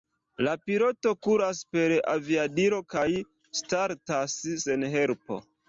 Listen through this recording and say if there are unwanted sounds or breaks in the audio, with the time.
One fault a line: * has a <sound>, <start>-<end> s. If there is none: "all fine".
all fine